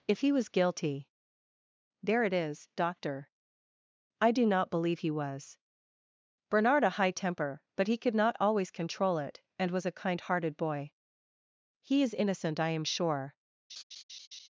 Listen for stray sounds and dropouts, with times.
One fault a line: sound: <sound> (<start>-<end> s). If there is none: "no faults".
sound: laugh (13.7-14.5 s)